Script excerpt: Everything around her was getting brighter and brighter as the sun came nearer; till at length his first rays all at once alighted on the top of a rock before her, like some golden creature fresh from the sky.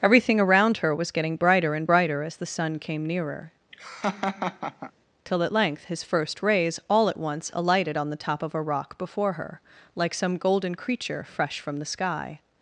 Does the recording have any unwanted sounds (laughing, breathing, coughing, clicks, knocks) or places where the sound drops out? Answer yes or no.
yes